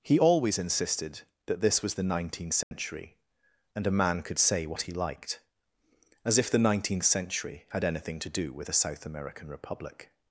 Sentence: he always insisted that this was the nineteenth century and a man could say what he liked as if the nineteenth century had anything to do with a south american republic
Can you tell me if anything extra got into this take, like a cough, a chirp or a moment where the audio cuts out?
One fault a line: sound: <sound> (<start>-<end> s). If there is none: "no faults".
sound: dropout (2.6-2.7 s)